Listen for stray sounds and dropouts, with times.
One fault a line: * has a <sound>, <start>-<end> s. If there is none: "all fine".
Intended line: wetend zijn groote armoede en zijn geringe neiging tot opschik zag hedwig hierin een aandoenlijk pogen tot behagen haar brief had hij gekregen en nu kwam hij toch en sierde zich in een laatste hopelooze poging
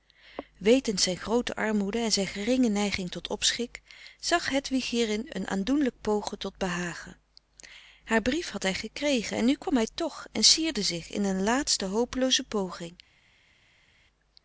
all fine